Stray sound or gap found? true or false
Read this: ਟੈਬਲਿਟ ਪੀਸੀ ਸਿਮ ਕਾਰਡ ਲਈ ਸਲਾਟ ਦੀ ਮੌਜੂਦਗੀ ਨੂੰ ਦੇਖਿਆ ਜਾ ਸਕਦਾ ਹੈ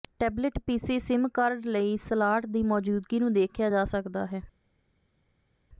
false